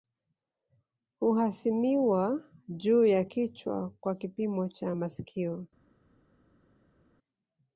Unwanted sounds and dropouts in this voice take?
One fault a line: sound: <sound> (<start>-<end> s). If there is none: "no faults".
no faults